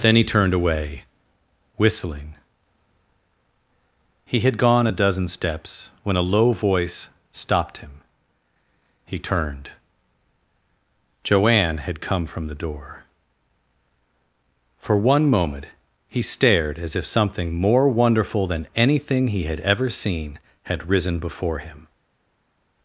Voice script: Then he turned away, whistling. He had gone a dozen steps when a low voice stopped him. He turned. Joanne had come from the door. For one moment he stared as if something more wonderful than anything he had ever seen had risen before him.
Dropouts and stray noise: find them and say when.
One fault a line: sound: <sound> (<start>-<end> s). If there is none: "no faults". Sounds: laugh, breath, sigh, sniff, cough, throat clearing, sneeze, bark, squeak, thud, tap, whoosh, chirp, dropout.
no faults